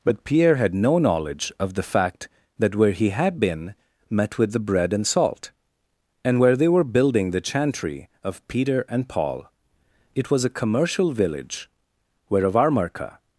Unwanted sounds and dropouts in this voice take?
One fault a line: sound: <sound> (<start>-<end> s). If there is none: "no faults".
no faults